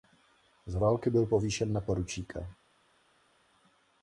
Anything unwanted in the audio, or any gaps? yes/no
no